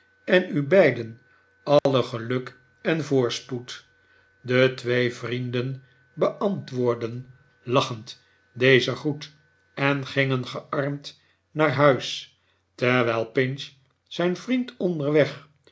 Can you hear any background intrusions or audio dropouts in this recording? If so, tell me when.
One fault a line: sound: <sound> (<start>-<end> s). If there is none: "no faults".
sound: dropout (1.8-1.9 s)